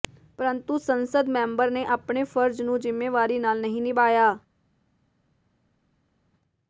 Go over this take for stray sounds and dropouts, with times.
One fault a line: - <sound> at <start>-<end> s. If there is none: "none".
none